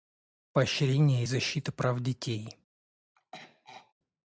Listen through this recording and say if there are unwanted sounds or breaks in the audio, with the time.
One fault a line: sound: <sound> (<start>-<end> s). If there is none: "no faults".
sound: throat clearing (3.2-3.9 s)